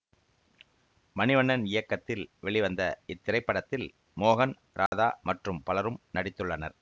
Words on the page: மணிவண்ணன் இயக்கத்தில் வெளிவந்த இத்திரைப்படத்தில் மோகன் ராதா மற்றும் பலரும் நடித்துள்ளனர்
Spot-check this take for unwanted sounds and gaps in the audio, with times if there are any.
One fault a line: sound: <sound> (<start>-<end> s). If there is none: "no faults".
sound: dropout (4.9-4.9 s)